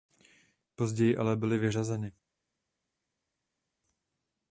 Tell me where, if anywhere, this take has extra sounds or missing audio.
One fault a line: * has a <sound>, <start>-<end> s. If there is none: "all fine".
all fine